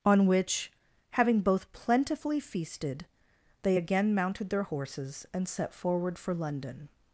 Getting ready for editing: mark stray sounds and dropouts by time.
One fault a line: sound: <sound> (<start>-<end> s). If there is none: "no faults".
no faults